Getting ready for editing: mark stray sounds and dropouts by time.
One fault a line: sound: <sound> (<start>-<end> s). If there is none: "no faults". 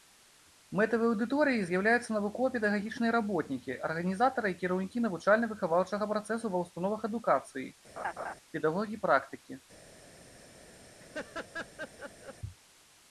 sound: laugh (8.0-8.3 s)
sound: laugh (11.0-12.4 s)